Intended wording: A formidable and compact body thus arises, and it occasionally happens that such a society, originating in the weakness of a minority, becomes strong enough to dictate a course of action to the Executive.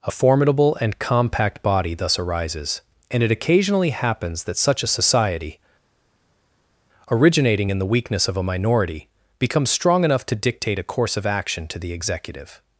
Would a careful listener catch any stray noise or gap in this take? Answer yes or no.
no